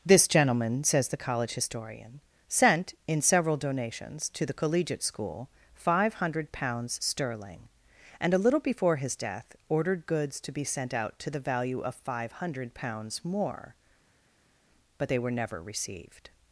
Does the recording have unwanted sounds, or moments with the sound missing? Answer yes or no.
no